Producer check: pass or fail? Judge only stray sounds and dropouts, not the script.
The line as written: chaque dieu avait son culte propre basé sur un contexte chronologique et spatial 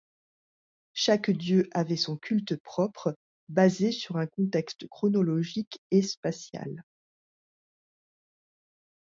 pass